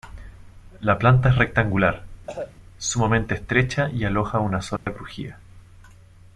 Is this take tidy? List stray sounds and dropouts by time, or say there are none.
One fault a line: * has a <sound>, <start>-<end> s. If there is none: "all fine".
* has a cough, 2.3-2.5 s
* has a dropout, 4.8-4.9 s